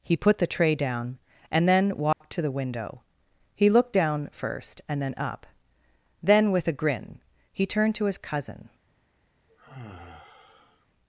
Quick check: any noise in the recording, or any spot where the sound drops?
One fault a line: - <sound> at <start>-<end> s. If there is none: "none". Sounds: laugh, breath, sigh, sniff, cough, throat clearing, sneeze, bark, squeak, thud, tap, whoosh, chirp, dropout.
- dropout at 2.1-2.2 s
- sigh at 9.5-10.9 s